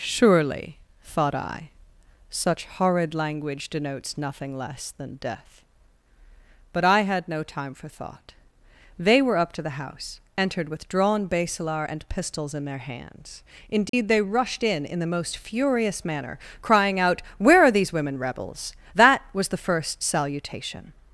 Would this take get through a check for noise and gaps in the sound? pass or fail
fail